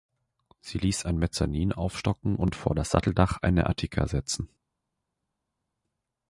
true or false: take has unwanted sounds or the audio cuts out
false